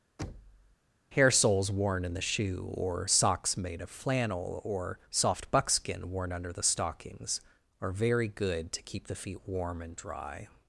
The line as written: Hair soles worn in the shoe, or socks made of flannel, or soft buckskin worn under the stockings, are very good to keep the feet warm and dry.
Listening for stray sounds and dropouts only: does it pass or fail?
fail